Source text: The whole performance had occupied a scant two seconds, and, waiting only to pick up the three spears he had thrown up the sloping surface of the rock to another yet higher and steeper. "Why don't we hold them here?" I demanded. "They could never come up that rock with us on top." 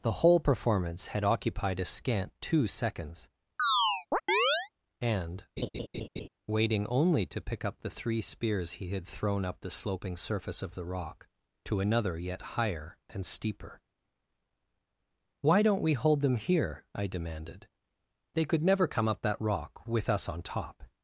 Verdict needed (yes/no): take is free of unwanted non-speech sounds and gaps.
no